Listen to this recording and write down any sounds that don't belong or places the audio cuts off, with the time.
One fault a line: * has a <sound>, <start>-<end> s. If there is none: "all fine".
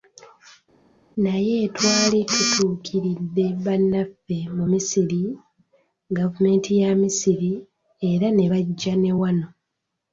all fine